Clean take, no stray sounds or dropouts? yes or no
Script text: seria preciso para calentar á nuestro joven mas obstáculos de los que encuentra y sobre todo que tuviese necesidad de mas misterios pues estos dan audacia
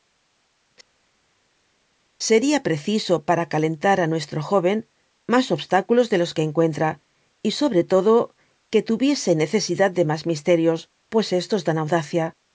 yes